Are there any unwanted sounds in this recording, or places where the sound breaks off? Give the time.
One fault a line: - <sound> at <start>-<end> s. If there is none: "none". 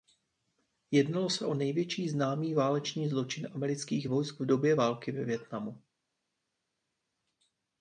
none